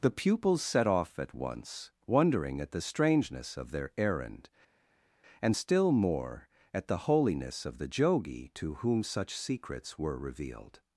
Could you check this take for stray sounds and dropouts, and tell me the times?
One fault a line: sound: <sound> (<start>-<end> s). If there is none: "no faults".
no faults